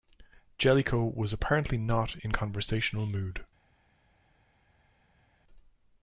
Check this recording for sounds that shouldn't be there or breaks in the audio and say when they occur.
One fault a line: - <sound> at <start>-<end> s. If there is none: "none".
none